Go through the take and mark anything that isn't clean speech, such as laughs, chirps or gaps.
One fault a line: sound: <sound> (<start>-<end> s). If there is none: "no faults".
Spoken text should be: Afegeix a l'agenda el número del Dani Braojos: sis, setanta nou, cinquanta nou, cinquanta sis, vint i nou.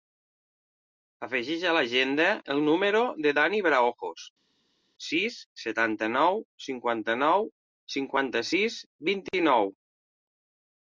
no faults